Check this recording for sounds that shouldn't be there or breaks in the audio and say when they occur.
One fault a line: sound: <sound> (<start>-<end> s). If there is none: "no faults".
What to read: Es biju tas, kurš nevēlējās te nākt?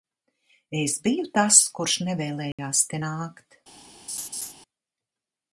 sound: dropout (2.5-2.6 s)
sound: laugh (4.1-4.5 s)